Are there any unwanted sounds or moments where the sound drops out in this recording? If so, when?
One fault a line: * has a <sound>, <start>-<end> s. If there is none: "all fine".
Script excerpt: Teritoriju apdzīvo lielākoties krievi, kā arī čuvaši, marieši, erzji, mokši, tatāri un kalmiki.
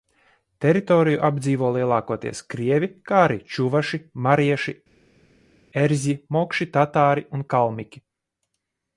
all fine